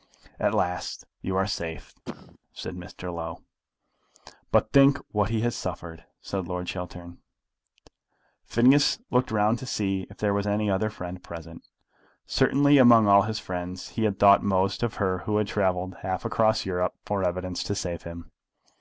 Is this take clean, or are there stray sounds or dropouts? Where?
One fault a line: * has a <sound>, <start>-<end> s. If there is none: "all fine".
* has a cough, 2.1-2.4 s